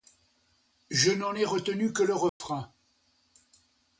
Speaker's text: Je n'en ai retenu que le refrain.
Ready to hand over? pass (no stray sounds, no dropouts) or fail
fail